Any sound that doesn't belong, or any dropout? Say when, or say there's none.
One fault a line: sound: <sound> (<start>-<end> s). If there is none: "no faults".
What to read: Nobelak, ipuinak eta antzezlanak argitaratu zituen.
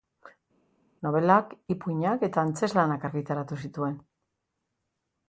no faults